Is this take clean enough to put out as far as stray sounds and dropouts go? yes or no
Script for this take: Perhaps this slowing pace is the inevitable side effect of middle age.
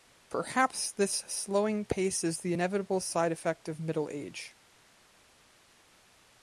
yes